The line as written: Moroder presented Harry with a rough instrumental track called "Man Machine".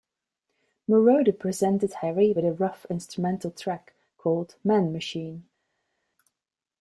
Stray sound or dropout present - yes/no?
no